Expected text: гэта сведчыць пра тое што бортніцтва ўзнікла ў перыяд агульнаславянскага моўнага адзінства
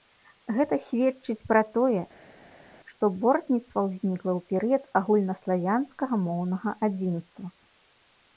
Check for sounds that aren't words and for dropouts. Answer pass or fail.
pass